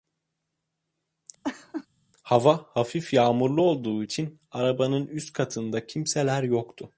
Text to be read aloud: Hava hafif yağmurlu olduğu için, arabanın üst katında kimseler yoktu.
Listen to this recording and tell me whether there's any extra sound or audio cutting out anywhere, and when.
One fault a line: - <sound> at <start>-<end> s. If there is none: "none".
- laugh at 1.4-1.9 s